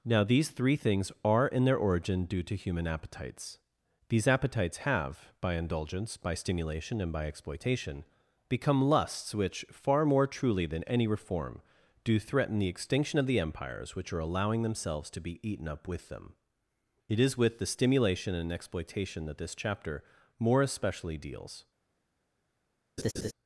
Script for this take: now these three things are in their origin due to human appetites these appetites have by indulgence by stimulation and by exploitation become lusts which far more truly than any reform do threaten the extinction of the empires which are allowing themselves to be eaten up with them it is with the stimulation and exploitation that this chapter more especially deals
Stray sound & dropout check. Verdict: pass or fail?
fail